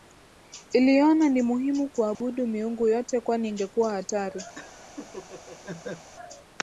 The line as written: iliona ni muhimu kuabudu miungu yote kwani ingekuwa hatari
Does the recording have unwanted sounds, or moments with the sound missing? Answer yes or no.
yes